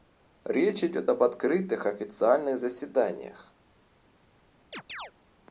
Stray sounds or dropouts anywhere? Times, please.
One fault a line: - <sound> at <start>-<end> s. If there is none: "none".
- chirp at 4.7-5.1 s